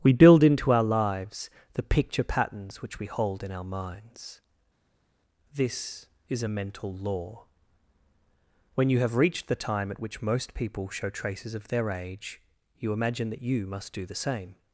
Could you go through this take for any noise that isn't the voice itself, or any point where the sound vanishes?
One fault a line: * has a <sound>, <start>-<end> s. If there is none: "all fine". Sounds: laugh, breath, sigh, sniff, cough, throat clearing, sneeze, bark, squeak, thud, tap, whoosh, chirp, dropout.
all fine